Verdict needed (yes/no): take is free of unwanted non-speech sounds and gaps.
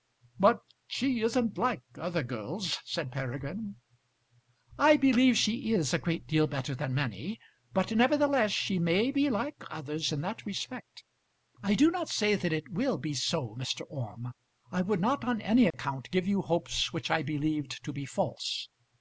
no